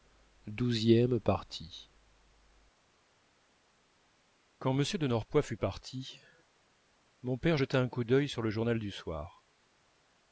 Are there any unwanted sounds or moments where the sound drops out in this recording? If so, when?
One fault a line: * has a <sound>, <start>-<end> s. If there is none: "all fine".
all fine